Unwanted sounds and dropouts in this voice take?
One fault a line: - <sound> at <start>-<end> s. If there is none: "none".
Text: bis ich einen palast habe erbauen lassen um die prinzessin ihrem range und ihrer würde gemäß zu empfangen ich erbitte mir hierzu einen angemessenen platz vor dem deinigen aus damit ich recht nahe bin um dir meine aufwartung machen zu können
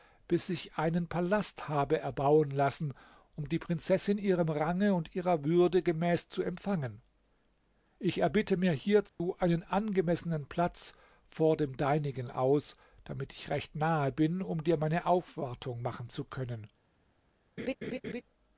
- dropout at 9.1-9.2 s
- laugh at 17.6-18.2 s